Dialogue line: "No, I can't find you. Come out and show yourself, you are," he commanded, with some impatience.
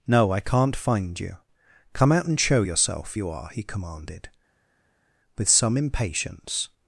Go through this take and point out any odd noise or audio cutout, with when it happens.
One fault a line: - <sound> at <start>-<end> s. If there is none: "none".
none